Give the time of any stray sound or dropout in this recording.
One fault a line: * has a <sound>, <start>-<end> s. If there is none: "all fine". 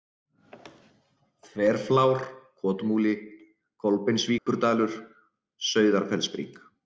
* has a dropout, 4.4-4.5 s